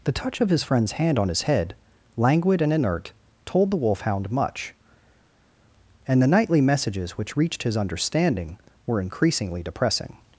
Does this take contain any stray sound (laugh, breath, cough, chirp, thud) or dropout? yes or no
no